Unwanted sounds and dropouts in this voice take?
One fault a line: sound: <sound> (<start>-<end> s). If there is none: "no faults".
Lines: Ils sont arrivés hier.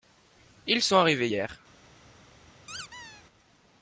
sound: squeak (2.7-3.2 s)